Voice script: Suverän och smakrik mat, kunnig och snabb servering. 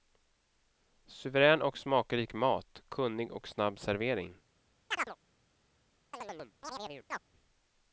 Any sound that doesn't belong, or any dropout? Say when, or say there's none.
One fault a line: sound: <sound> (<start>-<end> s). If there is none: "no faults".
sound: chirp (4.9-5.2 s)
sound: chirp (6.1-7.3 s)